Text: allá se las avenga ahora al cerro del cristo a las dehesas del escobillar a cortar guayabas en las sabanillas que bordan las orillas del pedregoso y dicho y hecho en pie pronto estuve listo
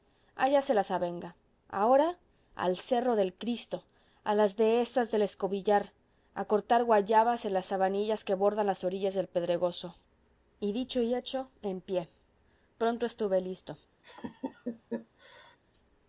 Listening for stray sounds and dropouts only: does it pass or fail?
fail